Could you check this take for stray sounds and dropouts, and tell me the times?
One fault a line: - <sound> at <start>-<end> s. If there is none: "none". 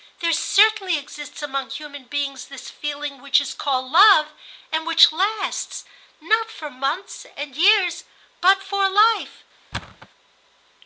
- thud at 9.7-10.1 s